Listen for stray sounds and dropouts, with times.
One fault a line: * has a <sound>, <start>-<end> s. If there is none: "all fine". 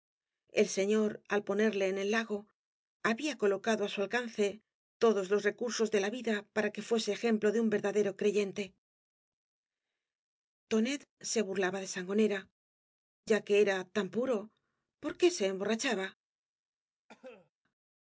* has a cough, 17.1-17.5 s